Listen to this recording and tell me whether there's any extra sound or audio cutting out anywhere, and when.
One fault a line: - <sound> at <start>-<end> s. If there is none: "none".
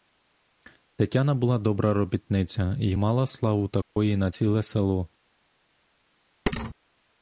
- dropout at 3.8-4.0 s
- thud at 6.5-6.7 s